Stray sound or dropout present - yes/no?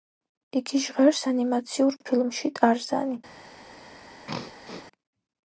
yes